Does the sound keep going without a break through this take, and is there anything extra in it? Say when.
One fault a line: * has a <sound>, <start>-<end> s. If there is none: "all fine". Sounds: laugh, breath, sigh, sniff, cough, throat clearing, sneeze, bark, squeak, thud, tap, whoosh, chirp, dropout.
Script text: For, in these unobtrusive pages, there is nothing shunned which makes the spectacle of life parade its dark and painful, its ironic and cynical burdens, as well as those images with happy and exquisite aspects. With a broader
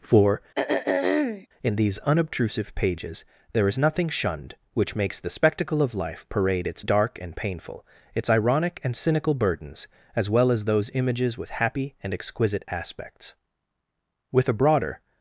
* has a throat clearing, 0.5-1.5 s